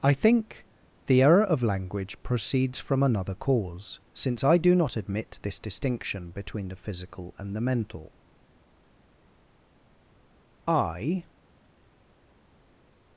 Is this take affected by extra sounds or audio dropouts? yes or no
no